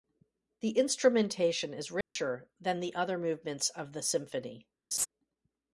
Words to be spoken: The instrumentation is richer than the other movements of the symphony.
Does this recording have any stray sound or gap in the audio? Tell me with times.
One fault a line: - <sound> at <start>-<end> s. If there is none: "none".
- dropout at 2.0-2.2 s
- laugh at 4.9-5.1 s